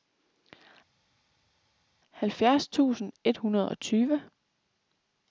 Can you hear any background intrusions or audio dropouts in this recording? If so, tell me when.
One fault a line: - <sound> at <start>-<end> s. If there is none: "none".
none